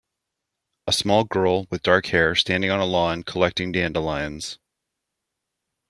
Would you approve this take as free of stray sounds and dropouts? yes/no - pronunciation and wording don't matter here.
yes